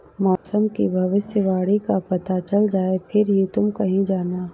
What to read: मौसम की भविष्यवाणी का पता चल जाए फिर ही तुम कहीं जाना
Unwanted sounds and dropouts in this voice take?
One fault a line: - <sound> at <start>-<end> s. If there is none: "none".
- dropout at 0.4-0.4 s